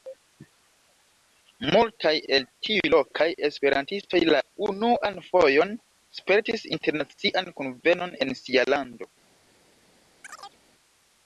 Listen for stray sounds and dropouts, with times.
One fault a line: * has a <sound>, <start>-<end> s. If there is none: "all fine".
* has a chirp, 10.2-10.6 s